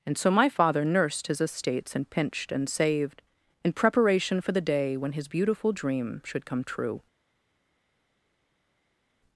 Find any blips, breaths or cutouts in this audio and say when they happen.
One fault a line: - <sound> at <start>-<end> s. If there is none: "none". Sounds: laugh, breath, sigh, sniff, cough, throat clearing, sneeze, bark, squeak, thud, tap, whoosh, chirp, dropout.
none